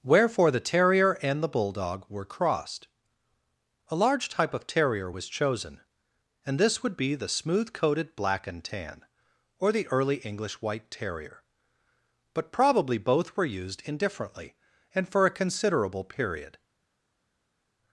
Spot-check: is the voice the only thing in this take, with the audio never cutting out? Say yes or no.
yes